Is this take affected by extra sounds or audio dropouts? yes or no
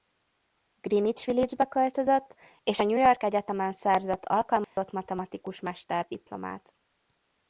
yes